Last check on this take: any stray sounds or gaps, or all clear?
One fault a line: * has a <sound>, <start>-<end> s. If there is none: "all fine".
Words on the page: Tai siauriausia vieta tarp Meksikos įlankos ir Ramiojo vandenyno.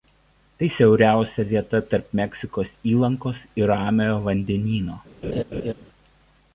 * has a laugh, 5.2-5.7 s